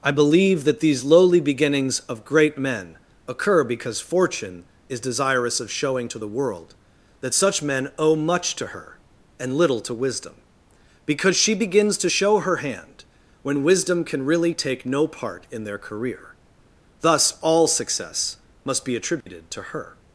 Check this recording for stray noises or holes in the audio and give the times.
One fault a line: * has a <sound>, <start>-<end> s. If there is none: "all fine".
* has a dropout, 19.2-19.3 s